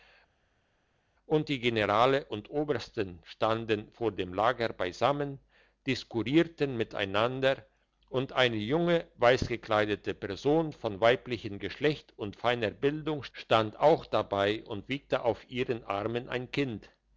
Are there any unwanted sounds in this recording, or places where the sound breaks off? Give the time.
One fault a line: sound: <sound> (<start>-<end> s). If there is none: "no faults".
no faults